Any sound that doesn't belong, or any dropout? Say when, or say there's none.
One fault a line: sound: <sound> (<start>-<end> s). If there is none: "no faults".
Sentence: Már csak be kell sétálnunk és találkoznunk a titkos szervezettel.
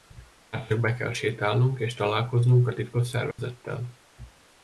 sound: dropout (3.3-3.4 s)